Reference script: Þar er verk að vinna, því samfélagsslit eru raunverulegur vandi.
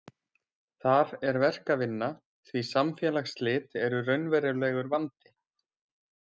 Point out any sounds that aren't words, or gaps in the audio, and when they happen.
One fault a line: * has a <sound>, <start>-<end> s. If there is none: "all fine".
all fine